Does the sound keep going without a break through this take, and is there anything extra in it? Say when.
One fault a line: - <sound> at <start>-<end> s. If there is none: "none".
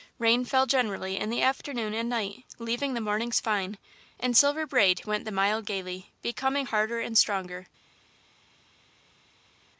none